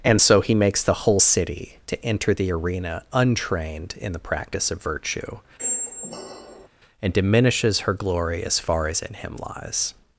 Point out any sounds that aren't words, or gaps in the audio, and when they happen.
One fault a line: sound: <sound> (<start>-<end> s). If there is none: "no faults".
sound: squeak (5.6-6.7 s)